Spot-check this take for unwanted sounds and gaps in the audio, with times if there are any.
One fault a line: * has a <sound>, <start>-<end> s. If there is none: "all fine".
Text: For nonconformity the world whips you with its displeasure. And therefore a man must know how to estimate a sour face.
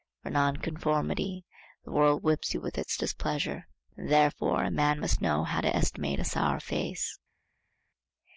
all fine